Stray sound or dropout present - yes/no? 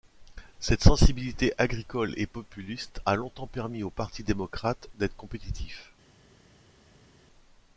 no